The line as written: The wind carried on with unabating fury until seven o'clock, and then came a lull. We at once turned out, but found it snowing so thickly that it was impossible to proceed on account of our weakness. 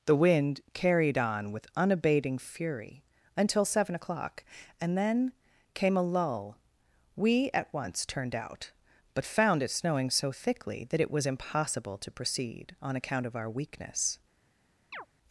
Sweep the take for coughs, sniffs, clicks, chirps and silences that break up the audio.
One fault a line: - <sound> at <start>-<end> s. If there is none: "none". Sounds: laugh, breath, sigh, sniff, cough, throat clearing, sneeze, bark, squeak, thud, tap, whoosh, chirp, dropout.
- chirp at 14.9-15.1 s